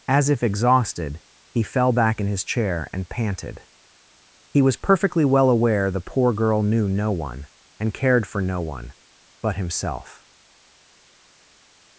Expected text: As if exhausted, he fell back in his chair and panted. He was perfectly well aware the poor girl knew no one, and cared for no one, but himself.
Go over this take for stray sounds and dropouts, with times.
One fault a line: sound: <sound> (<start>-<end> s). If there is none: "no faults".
no faults